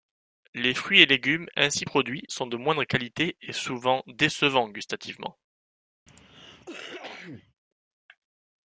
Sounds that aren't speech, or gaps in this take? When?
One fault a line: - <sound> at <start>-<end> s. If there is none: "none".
- cough at 6.1-7.5 s